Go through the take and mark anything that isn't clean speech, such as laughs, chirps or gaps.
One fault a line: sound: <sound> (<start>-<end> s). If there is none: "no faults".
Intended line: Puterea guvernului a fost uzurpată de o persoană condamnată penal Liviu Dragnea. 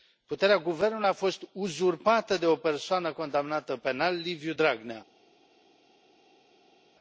no faults